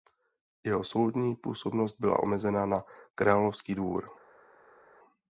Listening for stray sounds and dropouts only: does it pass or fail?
pass